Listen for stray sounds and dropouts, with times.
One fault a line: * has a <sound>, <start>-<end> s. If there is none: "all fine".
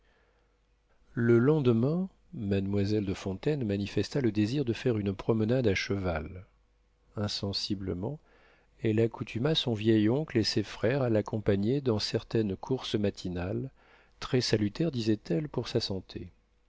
all fine